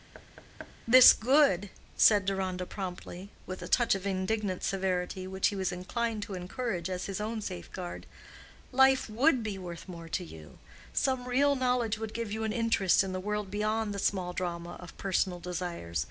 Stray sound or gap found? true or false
true